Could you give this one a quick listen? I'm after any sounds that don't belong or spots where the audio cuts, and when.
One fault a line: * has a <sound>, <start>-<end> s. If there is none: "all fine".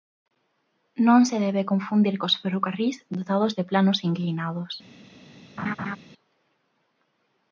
* has a laugh, 5.6-6.0 s